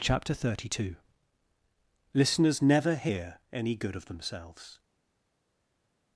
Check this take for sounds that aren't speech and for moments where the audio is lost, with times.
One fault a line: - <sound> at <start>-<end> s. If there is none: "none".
none